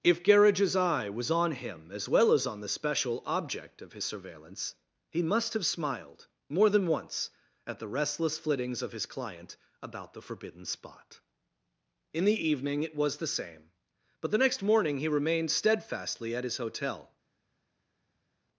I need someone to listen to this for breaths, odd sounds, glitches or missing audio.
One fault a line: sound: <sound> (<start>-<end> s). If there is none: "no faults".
no faults